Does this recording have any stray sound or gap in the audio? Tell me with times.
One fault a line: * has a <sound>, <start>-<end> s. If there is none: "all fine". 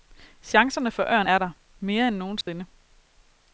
* has a dropout, 2.4-2.5 s